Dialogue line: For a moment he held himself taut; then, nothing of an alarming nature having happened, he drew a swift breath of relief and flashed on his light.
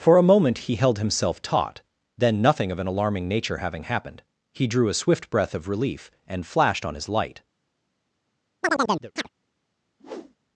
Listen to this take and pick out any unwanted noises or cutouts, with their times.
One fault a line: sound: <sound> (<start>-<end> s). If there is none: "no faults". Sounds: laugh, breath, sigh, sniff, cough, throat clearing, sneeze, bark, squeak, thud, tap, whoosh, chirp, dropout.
sound: chirp (8.6-9.3 s)
sound: whoosh (10.0-10.4 s)